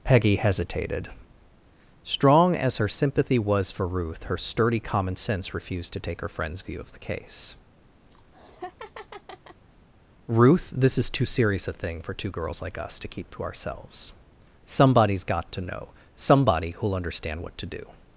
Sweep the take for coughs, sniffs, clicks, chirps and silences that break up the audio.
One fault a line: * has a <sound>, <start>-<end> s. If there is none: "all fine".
* has a laugh, 8.1-9.7 s